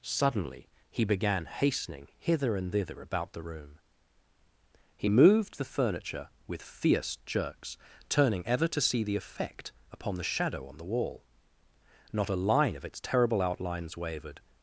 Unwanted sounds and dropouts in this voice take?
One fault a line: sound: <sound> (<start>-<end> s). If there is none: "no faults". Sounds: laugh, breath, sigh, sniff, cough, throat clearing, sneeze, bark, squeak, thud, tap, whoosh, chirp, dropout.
no faults